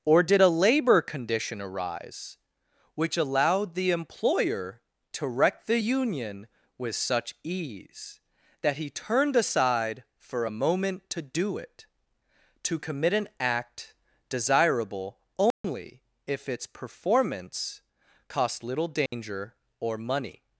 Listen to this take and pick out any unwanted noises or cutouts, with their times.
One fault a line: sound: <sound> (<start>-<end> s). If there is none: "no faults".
sound: dropout (15.5-15.6 s)
sound: dropout (19.1-19.1 s)